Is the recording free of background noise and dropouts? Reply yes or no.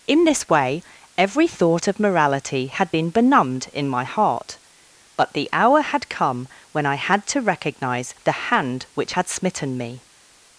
yes